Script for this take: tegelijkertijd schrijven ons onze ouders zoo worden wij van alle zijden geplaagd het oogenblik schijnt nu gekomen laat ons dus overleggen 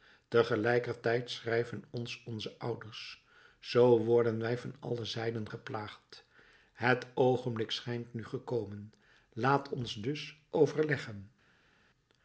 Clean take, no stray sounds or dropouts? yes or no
yes